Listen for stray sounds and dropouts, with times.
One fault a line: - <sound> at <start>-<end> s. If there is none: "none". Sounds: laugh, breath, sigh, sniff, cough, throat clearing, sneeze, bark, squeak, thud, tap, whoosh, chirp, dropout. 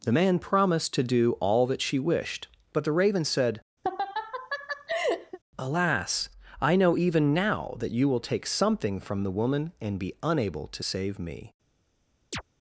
- laugh at 3.8-5.4 s
- chirp at 12.3-12.4 s